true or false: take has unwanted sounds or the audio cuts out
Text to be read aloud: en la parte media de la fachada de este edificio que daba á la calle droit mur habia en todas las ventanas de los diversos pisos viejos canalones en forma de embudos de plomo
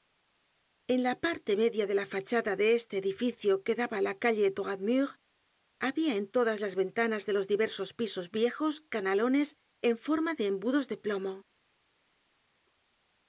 false